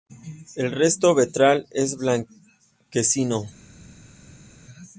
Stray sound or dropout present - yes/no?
no